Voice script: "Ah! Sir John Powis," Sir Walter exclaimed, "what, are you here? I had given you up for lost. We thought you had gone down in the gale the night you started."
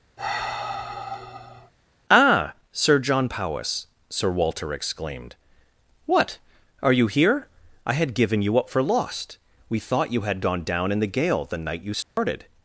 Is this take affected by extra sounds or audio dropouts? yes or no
yes